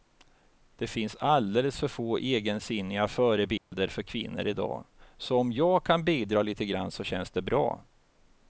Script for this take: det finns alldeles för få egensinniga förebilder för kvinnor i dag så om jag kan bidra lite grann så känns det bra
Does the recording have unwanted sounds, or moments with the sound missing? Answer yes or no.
yes